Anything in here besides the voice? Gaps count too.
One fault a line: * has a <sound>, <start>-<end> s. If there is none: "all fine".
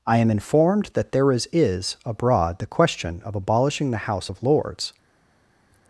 all fine